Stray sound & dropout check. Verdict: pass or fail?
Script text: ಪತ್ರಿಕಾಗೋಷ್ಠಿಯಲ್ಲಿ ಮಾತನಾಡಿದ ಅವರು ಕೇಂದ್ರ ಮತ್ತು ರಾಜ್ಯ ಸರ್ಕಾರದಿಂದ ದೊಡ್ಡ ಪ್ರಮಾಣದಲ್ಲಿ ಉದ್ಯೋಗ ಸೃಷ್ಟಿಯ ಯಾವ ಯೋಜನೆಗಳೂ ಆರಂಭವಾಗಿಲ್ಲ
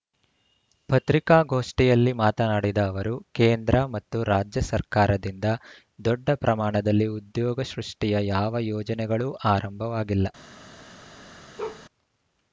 fail